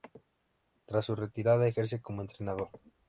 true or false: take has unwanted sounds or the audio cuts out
false